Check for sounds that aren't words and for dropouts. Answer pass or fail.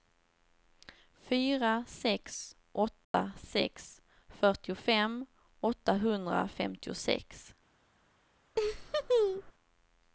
fail